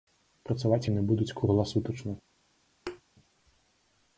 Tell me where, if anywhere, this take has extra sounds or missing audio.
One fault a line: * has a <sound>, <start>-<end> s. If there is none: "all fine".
* has a thud, 2.9-3.0 s